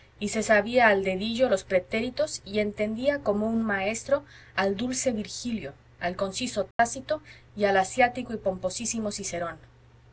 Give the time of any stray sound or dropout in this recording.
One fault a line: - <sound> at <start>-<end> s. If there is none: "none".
- dropout at 6.7-6.8 s